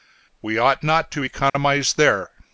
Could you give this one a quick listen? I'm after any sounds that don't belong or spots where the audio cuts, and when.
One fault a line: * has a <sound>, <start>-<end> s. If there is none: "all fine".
* has a dropout, 1.5-1.5 s